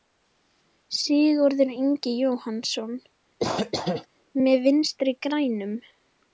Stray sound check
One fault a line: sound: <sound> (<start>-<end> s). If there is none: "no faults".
sound: cough (3.4-4.1 s)